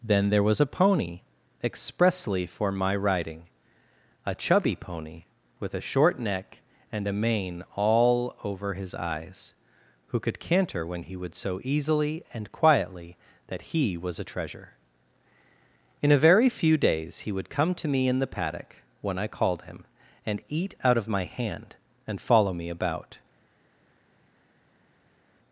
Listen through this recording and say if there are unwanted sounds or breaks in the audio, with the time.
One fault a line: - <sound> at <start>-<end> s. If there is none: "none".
none